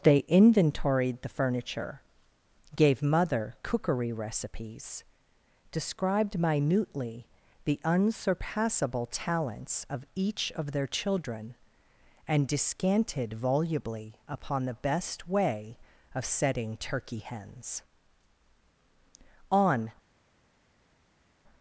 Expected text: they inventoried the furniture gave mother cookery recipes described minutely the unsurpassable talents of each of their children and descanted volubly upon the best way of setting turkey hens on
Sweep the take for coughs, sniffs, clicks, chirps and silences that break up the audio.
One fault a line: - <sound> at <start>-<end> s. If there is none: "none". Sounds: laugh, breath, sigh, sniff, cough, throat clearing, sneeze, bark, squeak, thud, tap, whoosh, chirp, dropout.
none